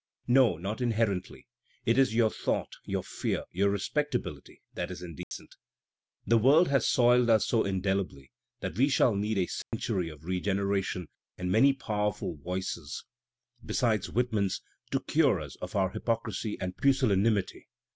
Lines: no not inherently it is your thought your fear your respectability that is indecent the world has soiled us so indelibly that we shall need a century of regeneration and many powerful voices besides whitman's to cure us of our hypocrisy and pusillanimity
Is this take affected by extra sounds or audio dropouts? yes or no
yes